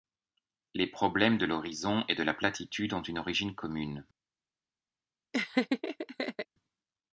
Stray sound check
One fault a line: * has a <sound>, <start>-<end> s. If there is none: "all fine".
* has a laugh, 5.3-6.5 s